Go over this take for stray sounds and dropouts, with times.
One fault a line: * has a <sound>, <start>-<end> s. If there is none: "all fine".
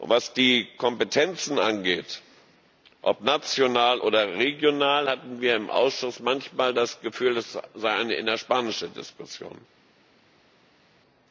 all fine